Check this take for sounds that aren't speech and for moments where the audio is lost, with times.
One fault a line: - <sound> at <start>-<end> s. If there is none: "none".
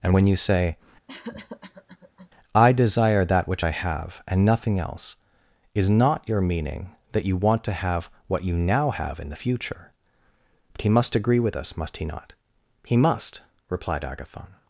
- cough at 1.1-2.3 s